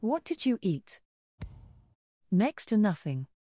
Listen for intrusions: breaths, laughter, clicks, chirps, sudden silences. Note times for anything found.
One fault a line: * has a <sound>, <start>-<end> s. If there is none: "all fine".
* has a thud, 1.4-2.0 s